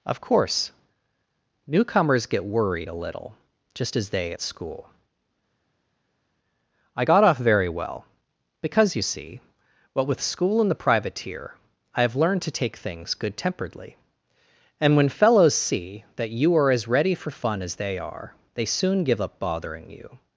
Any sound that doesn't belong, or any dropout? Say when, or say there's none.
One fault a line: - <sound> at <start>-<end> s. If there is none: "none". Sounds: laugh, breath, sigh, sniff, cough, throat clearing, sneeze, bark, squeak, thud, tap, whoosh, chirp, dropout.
none